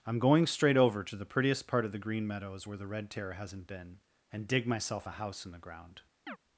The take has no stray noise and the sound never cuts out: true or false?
false